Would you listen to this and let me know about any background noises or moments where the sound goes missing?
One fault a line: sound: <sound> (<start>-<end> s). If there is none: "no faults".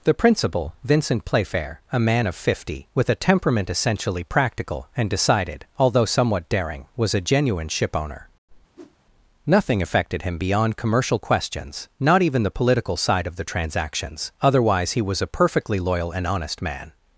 sound: whoosh (8.7-9.0 s)